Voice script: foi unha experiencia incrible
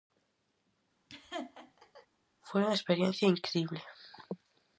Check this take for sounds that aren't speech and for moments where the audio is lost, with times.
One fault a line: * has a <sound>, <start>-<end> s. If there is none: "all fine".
* has a laugh, 1.1-2.1 s